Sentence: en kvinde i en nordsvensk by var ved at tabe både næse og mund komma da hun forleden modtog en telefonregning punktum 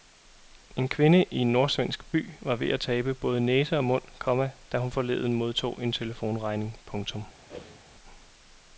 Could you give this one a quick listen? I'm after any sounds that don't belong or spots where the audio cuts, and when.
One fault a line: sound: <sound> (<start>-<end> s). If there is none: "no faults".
sound: whoosh (7.5-7.8 s)